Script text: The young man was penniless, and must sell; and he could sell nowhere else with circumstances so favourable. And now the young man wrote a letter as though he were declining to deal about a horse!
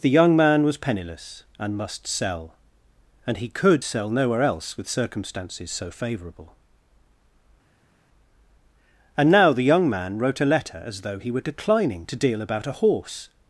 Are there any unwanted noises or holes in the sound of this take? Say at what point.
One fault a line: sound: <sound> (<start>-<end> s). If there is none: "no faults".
no faults